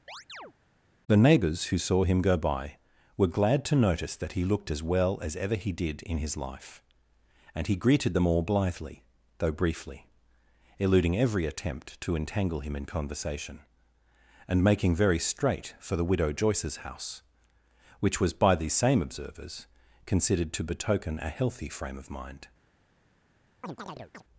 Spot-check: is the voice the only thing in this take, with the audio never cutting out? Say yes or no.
no